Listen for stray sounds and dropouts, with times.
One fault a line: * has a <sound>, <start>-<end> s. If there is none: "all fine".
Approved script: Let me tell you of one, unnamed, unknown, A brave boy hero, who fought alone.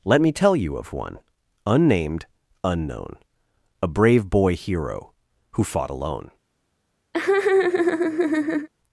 * has a laugh, 7.1-8.7 s